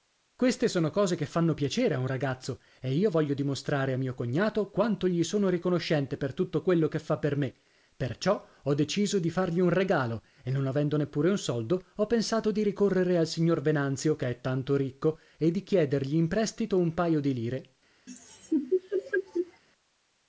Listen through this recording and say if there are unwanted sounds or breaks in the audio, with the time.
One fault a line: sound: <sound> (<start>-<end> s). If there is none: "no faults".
sound: laugh (18.1-19.6 s)